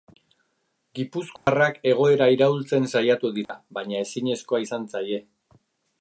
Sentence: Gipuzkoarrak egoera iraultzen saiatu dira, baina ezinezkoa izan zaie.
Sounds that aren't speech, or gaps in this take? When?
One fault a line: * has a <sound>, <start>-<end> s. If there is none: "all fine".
* has a dropout, 1.4-1.5 s
* has a dropout, 3.4-3.5 s